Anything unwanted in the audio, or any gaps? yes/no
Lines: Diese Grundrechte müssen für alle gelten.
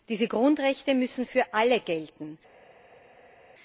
no